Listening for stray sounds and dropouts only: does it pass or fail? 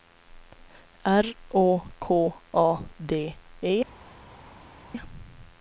pass